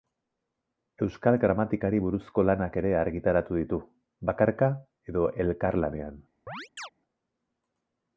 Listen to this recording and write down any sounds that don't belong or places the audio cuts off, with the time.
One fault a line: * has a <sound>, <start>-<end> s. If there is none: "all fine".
* has a chirp, 6.5-6.9 s